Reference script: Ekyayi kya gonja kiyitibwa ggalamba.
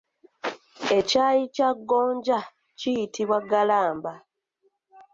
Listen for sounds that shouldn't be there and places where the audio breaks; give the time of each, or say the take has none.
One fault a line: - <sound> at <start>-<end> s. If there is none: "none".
none